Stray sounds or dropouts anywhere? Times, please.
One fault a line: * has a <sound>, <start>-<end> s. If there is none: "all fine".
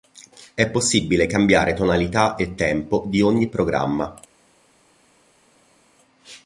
all fine